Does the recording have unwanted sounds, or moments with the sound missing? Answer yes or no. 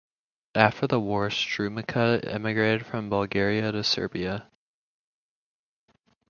no